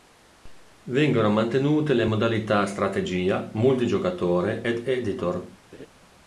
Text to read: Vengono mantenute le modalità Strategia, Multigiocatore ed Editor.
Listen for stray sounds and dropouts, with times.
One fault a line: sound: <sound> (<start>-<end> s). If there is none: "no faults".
sound: laugh (5.7-5.9 s)